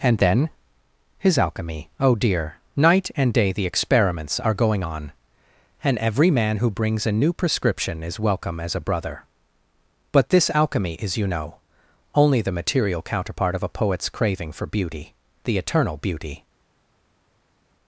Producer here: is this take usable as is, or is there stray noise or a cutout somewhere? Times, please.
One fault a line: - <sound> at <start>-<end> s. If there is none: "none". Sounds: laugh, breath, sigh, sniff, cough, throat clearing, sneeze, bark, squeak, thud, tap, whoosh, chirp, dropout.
none